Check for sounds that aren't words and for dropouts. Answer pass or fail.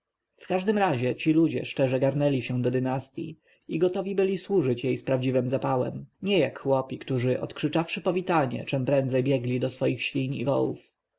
pass